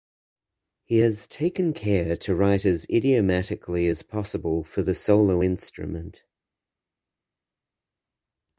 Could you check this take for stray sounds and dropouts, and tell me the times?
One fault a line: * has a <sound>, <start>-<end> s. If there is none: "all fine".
all fine